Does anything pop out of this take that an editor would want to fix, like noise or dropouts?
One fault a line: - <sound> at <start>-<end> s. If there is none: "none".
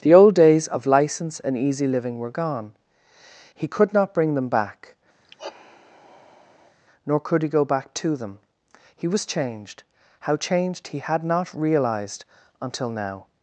- sigh at 5.2-6.8 s